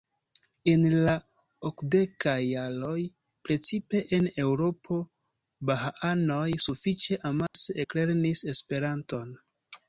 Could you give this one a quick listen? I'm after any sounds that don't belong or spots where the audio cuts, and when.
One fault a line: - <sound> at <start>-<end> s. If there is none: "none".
- dropout at 7.5-7.5 s